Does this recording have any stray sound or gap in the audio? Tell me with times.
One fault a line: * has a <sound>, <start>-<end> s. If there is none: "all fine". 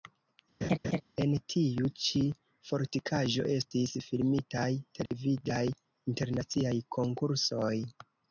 * has a laugh, 0.6-1.0 s
* has a dropout, 5.1-5.1 s